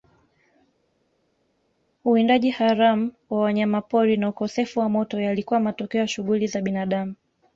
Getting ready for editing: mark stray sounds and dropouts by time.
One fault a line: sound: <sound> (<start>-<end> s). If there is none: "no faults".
no faults